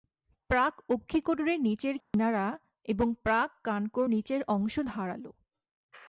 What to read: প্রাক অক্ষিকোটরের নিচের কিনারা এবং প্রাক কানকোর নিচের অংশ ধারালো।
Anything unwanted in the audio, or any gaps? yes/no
yes